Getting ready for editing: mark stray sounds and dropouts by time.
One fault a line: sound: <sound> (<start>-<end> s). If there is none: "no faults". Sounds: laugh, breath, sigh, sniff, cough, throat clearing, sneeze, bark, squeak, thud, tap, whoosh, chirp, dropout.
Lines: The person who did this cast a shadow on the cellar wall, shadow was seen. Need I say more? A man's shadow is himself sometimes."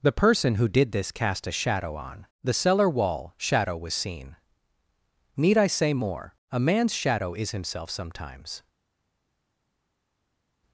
no faults